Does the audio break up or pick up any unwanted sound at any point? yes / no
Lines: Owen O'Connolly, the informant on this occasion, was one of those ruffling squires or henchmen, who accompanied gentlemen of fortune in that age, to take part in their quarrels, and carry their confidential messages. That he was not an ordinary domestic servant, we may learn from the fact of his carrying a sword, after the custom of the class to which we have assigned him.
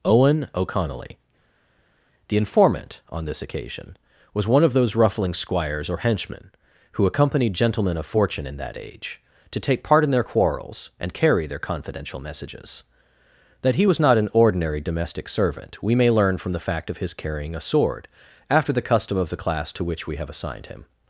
no